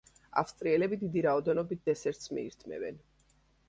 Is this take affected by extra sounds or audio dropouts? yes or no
no